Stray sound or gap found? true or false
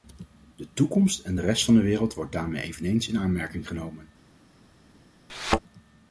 true